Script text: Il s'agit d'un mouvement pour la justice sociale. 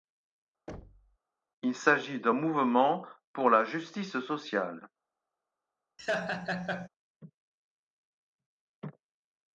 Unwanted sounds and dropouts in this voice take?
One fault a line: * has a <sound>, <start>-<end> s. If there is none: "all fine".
* has a thud, 0.7-1.2 s
* has a laugh, 6.0-6.9 s